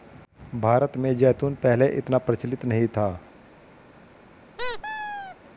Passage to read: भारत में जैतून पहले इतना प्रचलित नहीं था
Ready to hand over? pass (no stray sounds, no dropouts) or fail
fail